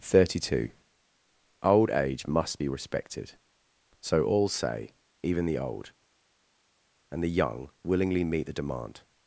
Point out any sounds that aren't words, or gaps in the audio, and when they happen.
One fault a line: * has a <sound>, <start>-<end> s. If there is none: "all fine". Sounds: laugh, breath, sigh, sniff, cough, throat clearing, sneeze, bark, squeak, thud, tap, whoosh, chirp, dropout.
all fine